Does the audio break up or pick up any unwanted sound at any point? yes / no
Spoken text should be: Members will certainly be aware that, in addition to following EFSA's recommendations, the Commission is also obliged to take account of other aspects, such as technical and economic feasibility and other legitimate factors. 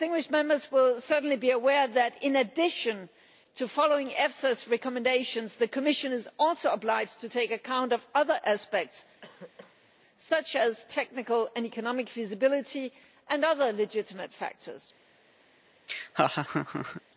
yes